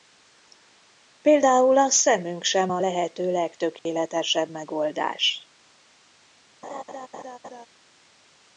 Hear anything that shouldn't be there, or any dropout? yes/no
yes